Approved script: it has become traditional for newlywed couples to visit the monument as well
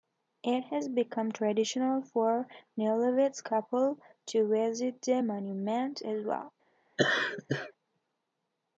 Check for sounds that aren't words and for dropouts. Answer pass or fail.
fail